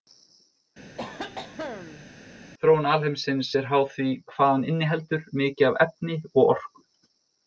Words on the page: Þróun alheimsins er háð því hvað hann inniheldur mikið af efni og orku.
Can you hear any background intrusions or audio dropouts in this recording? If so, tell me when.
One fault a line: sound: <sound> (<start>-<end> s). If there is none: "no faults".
sound: cough (1.0-2.1 s)